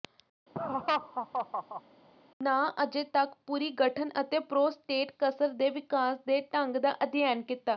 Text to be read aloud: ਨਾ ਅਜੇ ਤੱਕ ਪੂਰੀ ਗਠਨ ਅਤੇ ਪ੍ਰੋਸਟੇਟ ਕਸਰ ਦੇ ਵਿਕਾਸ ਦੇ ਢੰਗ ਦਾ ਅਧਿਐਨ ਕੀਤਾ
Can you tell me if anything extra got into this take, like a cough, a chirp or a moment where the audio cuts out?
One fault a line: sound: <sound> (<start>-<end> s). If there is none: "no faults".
sound: laugh (0.5-1.8 s)